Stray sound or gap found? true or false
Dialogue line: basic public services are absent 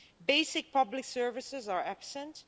false